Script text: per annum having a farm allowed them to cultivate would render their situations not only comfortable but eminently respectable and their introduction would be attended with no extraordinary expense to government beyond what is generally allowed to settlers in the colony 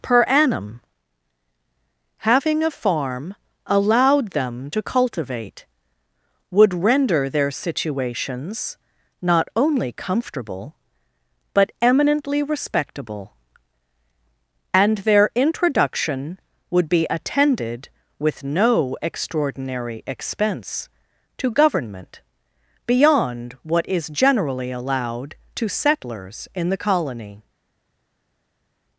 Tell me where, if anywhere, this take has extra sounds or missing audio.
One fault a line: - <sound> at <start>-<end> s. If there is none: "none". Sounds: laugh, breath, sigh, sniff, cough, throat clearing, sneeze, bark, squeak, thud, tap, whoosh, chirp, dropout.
none